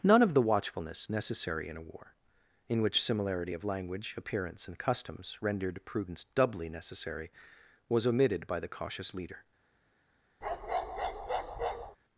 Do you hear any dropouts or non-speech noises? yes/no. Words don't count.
yes